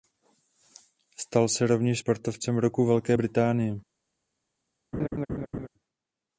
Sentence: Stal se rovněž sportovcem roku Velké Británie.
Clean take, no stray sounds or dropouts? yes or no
no